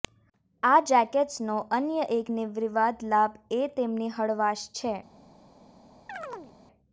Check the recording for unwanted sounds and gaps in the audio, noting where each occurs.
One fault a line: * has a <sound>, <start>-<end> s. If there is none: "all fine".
* has a chirp, 6.1-6.5 s